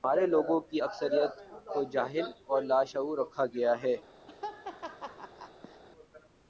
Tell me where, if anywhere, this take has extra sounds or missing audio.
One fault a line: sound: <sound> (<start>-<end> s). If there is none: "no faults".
sound: laugh (4.3-5.8 s)